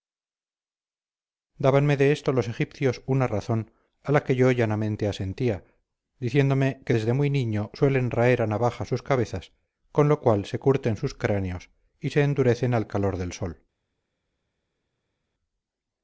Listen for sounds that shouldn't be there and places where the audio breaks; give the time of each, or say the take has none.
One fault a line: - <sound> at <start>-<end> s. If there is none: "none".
none